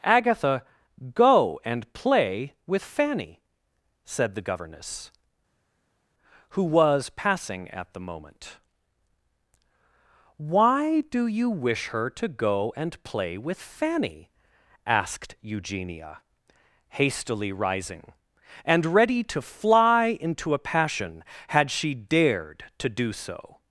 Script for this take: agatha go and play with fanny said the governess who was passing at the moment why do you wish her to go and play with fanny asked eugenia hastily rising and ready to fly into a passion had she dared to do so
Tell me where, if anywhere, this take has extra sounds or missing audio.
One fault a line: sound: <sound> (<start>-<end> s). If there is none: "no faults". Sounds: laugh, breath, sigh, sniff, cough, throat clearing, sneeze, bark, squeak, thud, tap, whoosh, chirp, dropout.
no faults